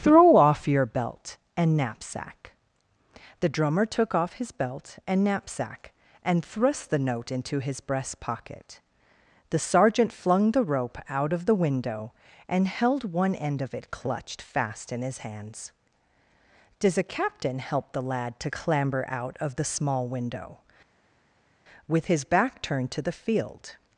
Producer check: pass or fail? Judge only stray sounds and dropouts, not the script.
pass